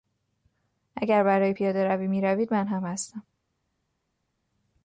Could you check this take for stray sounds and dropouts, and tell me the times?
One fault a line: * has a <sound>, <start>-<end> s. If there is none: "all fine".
all fine